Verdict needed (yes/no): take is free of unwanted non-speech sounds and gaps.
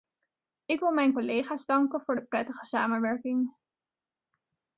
yes